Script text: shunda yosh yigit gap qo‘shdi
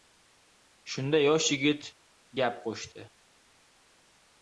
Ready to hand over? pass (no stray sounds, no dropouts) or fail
pass